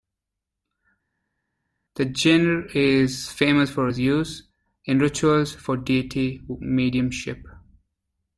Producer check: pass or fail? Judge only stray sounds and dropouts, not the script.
pass